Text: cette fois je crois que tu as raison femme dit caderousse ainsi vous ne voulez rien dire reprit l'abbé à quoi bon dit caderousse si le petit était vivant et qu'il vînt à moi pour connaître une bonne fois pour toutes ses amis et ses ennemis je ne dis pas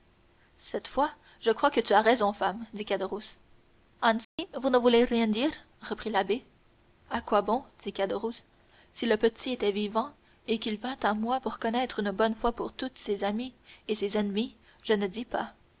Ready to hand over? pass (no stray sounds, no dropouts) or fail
fail